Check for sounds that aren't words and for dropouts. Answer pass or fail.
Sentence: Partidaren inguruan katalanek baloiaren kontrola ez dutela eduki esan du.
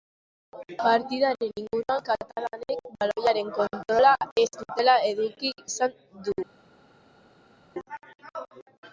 pass